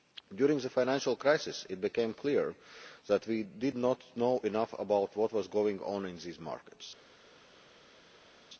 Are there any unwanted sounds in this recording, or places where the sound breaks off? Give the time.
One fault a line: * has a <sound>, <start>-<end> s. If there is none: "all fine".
all fine